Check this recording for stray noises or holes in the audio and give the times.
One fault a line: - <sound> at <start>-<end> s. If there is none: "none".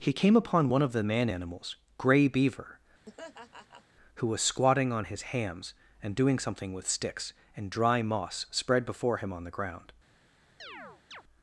- laugh at 3.1-3.9 s
- chirp at 10.6-11.2 s